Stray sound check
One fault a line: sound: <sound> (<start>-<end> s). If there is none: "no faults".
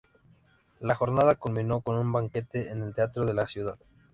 no faults